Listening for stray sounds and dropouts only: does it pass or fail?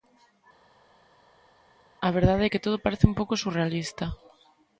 pass